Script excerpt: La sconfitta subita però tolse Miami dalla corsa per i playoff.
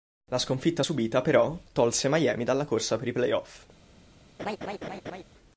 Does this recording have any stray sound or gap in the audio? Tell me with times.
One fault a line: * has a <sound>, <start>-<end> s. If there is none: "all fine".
* has a laugh, 4.4-5.2 s